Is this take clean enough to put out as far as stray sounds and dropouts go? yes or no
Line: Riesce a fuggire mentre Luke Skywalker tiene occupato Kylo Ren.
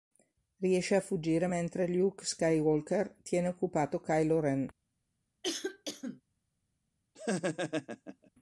no